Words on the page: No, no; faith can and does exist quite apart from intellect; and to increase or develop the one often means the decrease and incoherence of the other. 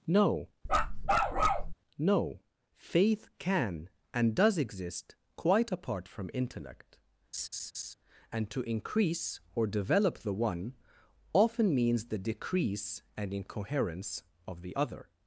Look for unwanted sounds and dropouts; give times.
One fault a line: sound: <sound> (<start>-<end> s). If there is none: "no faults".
sound: bark (0.7-1.7 s)
sound: laugh (7.3-7.9 s)